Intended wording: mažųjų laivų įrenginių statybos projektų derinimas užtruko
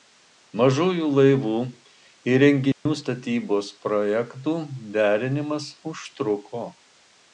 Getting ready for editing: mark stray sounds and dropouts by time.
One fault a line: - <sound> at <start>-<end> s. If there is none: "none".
- dropout at 2.7-2.9 s